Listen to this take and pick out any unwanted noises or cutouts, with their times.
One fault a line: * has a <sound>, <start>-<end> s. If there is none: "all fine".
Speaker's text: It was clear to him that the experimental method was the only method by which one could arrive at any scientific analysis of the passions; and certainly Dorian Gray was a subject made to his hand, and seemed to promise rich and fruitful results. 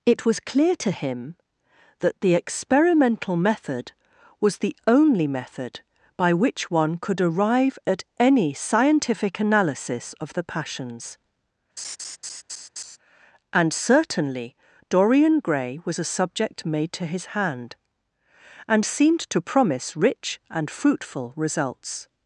* has a laugh, 11.8-13.0 s